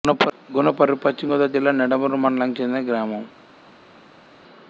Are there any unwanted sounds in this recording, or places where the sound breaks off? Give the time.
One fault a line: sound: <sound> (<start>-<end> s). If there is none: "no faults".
no faults